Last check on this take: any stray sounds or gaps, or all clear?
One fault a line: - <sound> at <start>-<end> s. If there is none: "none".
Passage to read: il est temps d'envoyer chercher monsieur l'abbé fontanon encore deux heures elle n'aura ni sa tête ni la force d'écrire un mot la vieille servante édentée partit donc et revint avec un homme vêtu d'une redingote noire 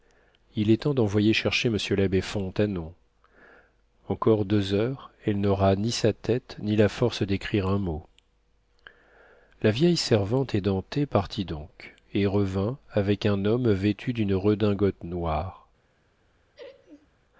- laugh at 16.5-17.1 s